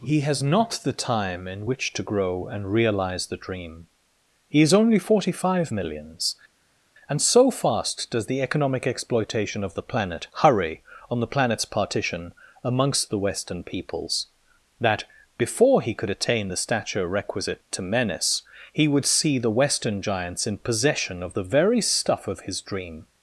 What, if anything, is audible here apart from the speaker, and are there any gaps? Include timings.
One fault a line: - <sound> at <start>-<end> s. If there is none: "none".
none